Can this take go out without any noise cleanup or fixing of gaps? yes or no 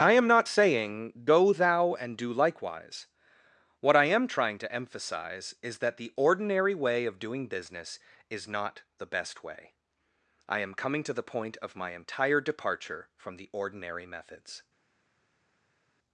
yes